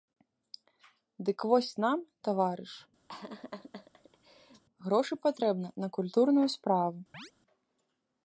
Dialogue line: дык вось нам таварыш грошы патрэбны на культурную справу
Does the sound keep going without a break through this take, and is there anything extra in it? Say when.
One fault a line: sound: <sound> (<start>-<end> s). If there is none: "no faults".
sound: laugh (3.1-4.6 s)
sound: chirp (7.1-7.3 s)